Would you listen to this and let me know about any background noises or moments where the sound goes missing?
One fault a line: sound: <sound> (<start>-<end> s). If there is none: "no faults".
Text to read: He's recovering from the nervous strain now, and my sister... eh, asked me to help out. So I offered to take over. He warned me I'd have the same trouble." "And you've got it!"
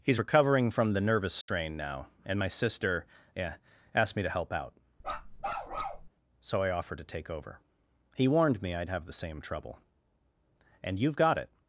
sound: dropout (1.4-1.5 s)
sound: bark (5.0-6.1 s)